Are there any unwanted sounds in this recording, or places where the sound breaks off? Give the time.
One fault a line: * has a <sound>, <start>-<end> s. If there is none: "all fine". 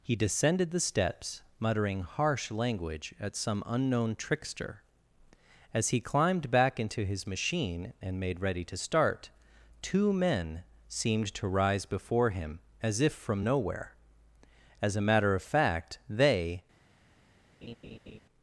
* has a laugh, 17.6-18.2 s